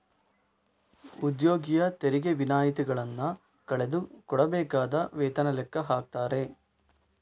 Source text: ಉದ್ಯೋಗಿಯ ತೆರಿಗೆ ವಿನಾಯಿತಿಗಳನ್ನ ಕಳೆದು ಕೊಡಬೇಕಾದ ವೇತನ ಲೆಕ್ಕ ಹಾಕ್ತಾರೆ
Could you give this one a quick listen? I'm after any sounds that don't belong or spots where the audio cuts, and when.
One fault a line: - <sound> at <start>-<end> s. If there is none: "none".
none